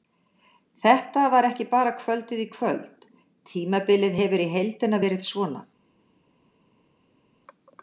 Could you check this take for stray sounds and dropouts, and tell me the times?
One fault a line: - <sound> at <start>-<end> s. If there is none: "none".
none